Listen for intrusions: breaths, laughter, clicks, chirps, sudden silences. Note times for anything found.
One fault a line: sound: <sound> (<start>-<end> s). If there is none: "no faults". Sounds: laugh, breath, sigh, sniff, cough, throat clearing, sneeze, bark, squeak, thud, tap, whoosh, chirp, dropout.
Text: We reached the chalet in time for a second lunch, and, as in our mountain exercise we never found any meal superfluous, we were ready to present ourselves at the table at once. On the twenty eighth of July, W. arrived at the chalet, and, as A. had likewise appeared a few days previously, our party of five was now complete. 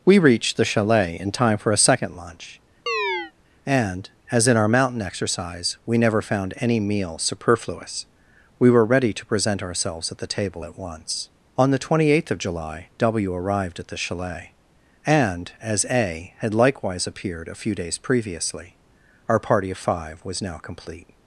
sound: chirp (2.9-3.3 s)